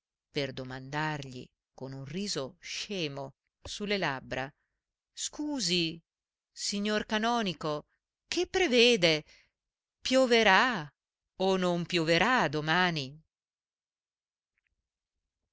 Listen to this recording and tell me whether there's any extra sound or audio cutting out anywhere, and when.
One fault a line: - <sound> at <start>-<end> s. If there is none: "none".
none